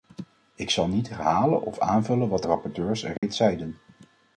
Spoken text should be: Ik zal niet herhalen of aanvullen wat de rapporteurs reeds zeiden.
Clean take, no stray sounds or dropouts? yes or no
no